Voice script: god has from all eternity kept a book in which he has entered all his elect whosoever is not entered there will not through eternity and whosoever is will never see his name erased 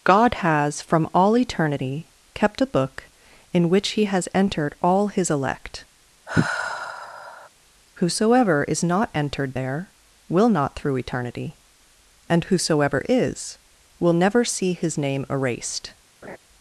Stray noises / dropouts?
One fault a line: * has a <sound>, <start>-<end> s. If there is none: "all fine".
* has a sigh, 6.3-7.5 s
* has a laugh, 16.2-16.4 s